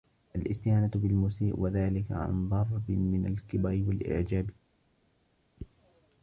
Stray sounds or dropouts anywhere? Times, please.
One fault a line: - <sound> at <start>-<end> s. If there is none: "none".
none